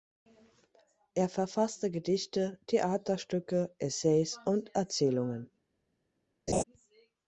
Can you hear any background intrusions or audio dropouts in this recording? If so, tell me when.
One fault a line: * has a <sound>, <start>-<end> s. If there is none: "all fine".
* has a laugh, 6.5-6.6 s